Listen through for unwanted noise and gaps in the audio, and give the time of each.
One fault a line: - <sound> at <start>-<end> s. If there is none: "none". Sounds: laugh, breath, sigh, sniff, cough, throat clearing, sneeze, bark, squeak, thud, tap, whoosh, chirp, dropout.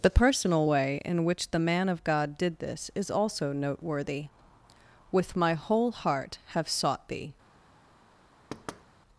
- thud at 8.5-8.8 s